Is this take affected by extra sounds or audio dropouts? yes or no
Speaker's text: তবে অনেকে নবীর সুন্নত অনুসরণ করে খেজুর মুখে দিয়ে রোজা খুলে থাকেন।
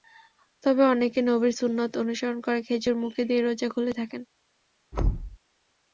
yes